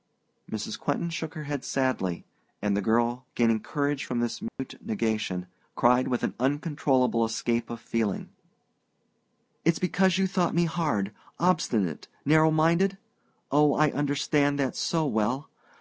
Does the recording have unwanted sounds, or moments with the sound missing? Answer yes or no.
yes